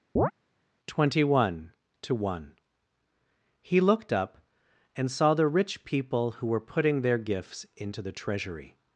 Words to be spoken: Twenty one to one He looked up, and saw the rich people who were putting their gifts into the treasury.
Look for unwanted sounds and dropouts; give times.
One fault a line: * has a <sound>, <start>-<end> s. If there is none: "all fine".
* has a chirp, 0.2-0.3 s